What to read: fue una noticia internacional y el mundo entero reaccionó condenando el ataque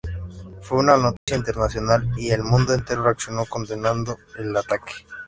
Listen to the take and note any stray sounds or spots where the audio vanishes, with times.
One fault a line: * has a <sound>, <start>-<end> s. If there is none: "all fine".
* has a dropout, 1.2-1.3 s